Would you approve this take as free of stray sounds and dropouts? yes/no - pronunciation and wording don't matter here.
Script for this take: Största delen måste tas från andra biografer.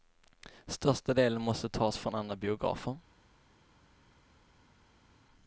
yes